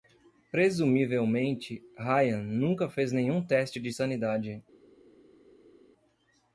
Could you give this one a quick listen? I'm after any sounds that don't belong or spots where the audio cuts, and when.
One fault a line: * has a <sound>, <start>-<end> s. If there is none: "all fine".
all fine